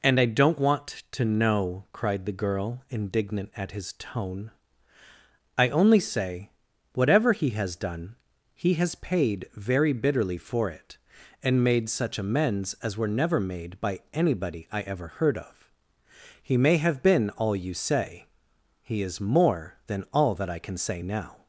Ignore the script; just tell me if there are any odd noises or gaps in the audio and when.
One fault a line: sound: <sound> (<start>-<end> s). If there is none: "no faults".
no faults